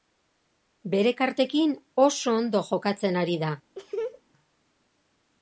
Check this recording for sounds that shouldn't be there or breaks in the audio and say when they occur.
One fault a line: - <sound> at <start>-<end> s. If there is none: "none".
- laugh at 3.8-4.2 s